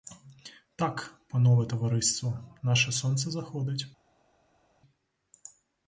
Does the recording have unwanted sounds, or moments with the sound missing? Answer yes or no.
no